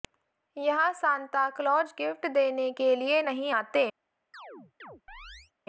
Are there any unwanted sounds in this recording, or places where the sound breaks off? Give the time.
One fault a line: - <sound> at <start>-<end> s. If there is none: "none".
- chirp at 4.3-5.5 s